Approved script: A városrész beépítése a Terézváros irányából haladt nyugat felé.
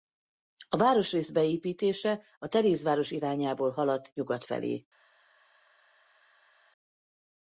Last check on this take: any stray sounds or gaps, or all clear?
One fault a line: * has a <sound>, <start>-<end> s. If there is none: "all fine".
all fine